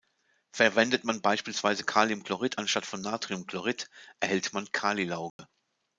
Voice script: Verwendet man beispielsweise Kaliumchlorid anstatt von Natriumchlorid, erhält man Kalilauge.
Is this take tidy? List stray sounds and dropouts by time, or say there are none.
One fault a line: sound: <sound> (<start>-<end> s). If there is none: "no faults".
sound: dropout (5.3-5.4 s)